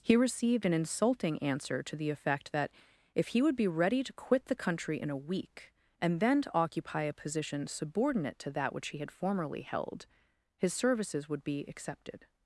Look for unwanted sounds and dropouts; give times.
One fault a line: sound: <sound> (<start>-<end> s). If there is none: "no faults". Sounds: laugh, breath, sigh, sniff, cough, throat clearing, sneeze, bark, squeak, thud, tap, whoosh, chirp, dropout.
no faults